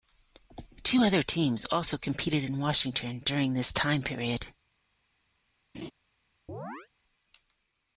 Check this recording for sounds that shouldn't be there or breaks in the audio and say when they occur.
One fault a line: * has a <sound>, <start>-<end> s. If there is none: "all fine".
* has a laugh, 5.7-5.9 s
* has a chirp, 6.5-6.9 s